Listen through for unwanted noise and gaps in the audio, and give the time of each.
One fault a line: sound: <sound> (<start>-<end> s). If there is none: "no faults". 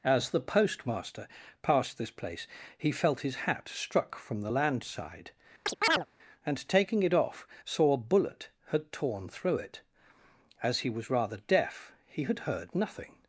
sound: chirp (5.7-6.1 s)